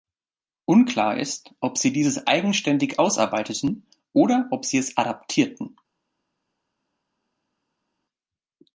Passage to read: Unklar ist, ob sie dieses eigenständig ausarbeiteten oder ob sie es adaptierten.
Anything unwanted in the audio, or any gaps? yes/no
no